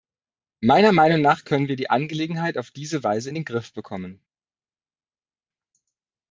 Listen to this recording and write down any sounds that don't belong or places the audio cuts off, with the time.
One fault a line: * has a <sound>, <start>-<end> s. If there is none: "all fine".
all fine